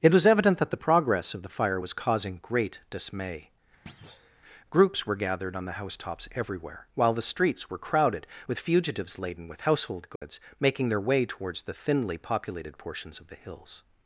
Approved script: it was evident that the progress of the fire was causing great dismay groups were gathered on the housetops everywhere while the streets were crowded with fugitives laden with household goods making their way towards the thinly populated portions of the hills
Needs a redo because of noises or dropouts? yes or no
yes